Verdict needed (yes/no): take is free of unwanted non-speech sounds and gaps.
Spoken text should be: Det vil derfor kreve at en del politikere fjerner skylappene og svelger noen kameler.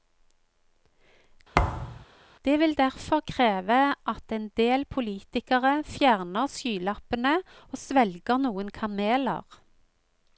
no